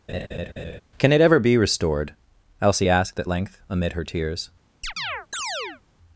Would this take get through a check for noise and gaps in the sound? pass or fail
fail